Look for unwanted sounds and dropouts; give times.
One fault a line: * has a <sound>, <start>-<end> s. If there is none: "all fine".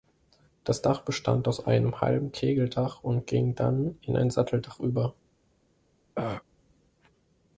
* has a throat clearing, 6.1-6.4 s